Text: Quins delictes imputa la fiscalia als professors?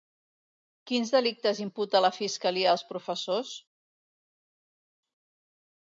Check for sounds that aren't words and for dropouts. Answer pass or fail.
pass